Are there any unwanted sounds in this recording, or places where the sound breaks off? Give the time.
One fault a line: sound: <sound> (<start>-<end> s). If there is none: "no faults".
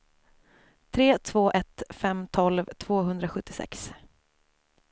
no faults